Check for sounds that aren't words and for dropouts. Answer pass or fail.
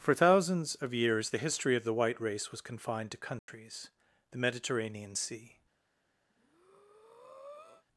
fail